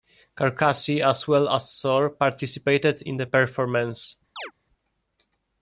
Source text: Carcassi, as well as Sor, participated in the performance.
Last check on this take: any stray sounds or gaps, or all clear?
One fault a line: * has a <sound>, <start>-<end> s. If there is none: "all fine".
* has a chirp, 4.4-4.5 s